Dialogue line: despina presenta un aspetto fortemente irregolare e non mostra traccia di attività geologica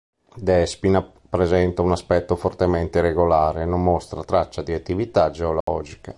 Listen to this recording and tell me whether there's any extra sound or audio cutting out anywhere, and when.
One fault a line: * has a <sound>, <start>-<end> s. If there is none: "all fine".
* has a dropout, 5.6-5.7 s